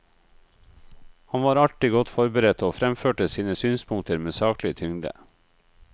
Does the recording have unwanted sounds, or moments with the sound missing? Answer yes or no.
no